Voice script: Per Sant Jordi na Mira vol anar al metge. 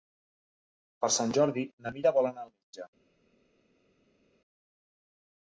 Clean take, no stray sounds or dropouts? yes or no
yes